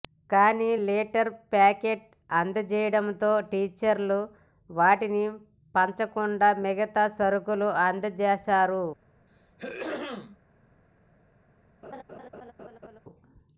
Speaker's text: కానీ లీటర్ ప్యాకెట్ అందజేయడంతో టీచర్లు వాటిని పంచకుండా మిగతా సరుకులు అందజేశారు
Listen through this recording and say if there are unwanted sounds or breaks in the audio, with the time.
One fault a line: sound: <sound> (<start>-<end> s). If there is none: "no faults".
sound: throat clearing (9.3-10.4 s)
sound: laugh (11.8-13.0 s)